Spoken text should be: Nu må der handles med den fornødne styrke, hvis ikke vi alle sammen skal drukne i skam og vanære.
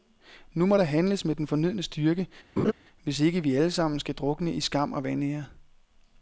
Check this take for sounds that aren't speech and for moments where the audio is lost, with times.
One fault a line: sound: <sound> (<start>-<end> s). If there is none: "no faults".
sound: laugh (2.6-2.7 s)